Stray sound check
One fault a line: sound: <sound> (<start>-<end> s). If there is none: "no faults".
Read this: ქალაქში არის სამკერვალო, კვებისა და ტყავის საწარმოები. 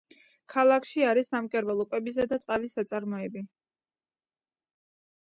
no faults